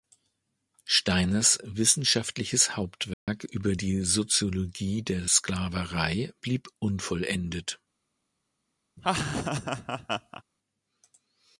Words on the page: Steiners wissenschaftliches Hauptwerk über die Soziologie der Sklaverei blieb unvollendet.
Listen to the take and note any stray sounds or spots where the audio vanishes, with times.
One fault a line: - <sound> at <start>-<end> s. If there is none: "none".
- dropout at 3.1-3.3 s
- laugh at 9.0-10.4 s